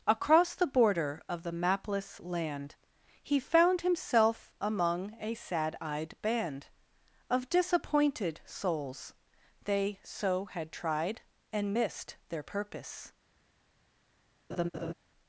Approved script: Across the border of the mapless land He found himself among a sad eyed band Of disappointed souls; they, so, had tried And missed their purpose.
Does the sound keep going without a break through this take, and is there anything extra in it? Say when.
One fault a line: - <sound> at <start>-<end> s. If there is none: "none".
- laugh at 14.5-14.9 s